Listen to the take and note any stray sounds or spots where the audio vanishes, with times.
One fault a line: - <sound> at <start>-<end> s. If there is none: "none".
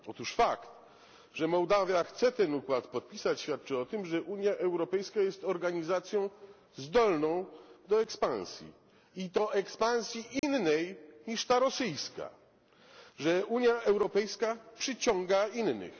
- dropout at 10.4-10.4 s